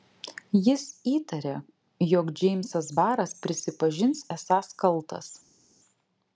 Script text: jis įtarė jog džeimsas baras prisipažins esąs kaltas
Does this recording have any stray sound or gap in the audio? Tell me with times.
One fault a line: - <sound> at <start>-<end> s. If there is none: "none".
none